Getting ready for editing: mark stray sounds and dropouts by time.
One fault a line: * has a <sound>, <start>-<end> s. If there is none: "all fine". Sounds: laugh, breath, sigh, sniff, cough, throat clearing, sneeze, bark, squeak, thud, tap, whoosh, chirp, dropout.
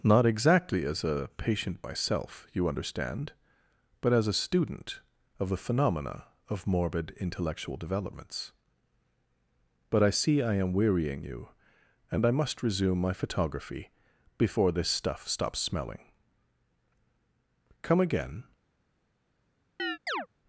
* has a chirp, 19.8-20.3 s